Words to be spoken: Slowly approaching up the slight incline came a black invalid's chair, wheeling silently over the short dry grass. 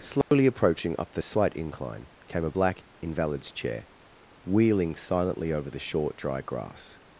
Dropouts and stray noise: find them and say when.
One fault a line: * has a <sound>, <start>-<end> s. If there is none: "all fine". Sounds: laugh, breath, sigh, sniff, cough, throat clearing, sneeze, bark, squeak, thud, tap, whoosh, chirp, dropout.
* has a dropout, 0.2-0.3 s